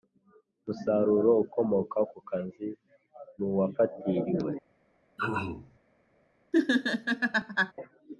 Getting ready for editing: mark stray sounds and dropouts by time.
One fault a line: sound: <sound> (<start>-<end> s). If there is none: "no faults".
sound: throat clearing (5.2-5.8 s)
sound: laugh (6.5-7.7 s)